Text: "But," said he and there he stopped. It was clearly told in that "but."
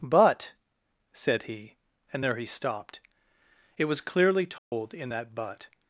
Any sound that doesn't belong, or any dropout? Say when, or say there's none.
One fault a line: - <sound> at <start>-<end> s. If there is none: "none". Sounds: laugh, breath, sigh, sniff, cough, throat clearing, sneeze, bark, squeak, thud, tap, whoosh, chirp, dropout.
- dropout at 4.6-4.7 s